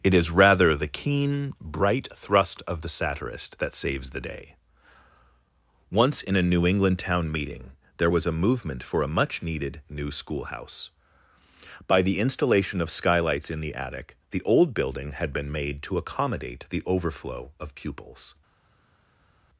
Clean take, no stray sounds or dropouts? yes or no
yes